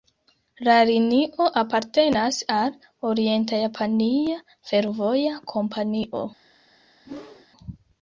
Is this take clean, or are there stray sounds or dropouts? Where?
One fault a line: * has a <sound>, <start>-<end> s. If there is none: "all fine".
* has a whoosh, 7.0-7.5 s